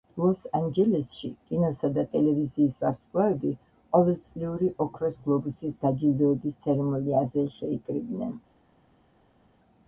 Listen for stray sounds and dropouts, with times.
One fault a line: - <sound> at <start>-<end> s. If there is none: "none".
none